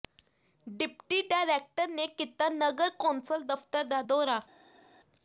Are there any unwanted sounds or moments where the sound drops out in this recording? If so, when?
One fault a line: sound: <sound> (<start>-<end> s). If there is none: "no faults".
no faults